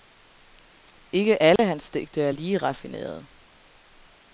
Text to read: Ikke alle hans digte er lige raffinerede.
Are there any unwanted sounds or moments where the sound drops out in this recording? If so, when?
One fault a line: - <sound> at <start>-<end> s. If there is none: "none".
- dropout at 1.6-1.6 s